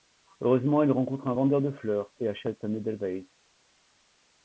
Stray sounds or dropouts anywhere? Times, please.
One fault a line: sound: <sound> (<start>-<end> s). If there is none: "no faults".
no faults